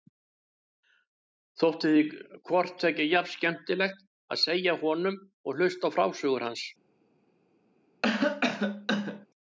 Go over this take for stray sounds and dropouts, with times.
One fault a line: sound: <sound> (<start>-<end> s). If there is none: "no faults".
sound: cough (8.0-9.3 s)